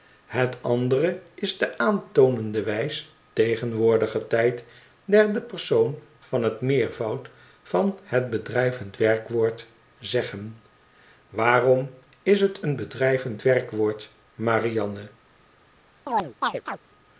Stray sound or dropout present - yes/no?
yes